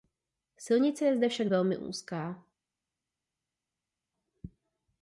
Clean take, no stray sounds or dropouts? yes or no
yes